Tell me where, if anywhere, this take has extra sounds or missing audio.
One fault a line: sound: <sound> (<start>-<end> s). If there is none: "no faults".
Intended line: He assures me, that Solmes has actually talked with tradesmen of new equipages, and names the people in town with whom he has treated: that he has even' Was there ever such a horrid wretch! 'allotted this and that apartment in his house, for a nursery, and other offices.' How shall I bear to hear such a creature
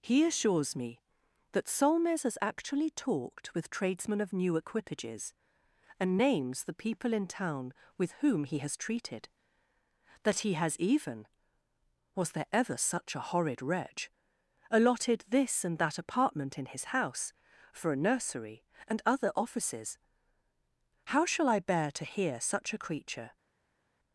no faults